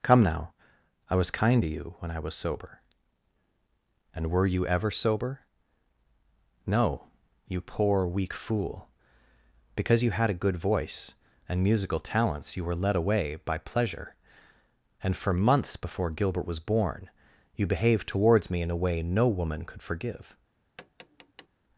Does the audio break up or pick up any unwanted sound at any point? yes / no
yes